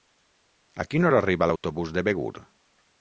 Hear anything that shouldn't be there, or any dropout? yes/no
yes